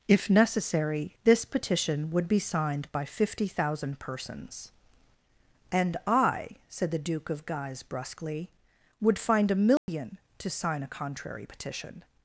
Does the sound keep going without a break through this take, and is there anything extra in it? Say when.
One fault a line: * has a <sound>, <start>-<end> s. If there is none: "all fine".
* has a dropout, 9.8-9.9 s